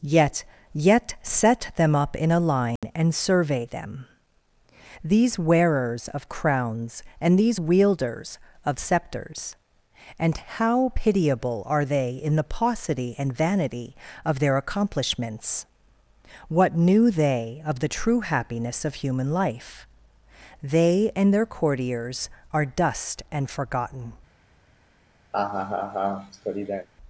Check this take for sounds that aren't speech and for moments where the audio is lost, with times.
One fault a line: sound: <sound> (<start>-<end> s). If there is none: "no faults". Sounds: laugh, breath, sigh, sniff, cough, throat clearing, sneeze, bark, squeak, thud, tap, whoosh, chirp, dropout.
sound: dropout (2.8-2.8 s)
sound: laugh (25.3-26.9 s)